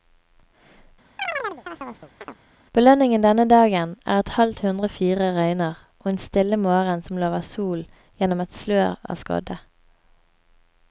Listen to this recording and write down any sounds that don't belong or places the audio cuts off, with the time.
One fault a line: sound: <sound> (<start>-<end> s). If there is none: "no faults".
sound: chirp (1.2-2.4 s)